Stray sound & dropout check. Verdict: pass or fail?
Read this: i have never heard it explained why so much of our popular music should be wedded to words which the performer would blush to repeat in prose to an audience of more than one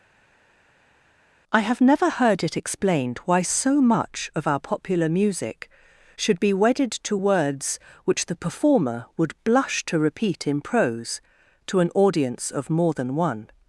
pass